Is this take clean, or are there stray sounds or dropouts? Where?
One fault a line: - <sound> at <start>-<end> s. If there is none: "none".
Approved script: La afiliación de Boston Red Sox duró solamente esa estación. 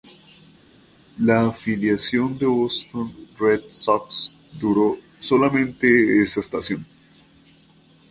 none